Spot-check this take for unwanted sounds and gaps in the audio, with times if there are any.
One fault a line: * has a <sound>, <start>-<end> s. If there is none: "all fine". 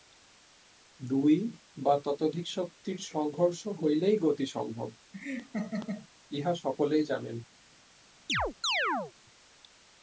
* has a laugh, 5.1-6.1 s
* has a chirp, 8.3-9.1 s